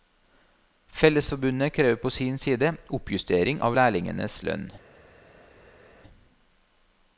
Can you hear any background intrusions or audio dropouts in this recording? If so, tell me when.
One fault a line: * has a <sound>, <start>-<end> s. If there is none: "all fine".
all fine